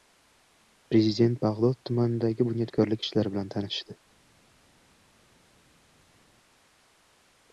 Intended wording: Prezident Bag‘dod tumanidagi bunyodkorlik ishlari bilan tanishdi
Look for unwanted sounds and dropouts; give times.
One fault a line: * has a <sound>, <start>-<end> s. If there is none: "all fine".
all fine